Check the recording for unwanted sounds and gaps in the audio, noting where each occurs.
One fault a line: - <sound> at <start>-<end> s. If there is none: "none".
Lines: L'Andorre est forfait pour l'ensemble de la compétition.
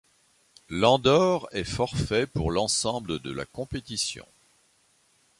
none